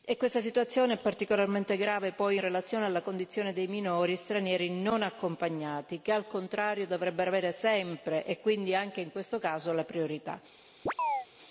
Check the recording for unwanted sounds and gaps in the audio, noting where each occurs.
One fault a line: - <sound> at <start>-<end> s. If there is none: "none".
- chirp at 10.9-11.3 s